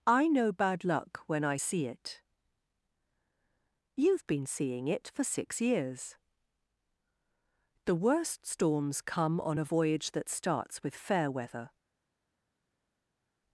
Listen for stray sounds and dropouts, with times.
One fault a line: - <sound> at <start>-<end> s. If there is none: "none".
none